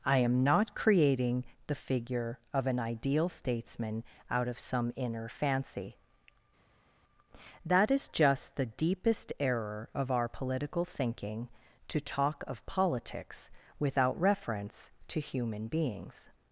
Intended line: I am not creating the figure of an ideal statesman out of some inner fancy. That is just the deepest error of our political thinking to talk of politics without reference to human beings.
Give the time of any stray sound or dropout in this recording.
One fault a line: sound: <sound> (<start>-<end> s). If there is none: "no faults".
no faults